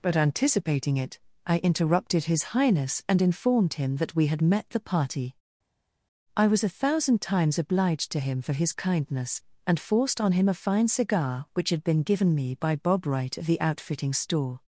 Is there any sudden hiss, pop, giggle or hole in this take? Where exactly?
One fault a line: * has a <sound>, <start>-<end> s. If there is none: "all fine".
all fine